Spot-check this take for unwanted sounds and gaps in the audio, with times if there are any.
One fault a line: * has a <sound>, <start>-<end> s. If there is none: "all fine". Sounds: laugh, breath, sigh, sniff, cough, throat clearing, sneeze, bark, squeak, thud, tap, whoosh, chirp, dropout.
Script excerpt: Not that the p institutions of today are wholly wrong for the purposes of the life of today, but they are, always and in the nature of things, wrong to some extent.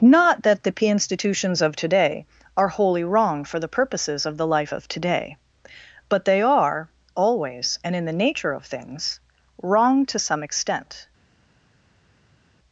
all fine